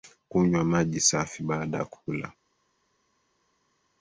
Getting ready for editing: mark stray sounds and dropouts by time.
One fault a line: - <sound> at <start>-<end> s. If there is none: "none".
none